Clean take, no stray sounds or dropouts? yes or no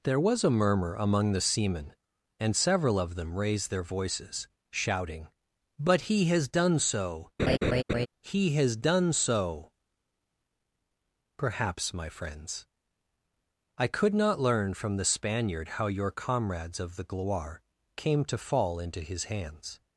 no